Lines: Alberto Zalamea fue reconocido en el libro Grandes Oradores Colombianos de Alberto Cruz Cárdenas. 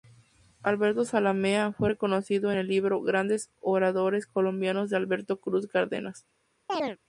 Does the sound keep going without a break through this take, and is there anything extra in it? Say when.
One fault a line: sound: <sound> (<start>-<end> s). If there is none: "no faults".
sound: chirp (6.7-7.0 s)